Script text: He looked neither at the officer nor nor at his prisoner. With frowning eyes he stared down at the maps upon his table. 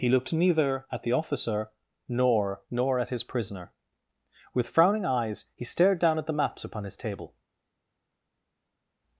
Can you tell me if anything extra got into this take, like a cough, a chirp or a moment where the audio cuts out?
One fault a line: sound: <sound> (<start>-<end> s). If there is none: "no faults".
no faults